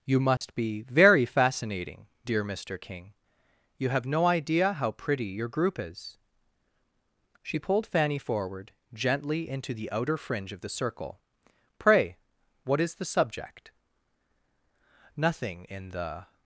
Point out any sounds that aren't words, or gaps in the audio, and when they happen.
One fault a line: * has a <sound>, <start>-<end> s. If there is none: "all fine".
* has a dropout, 0.4-0.4 s